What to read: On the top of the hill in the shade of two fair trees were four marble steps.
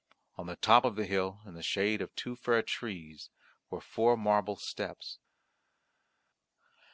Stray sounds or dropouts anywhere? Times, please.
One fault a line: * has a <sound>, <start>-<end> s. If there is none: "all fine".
all fine